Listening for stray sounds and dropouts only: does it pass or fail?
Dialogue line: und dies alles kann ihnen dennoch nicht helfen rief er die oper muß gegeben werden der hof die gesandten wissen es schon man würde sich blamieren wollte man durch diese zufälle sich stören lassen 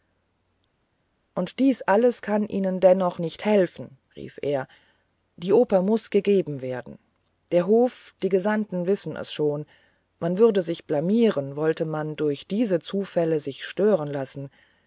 pass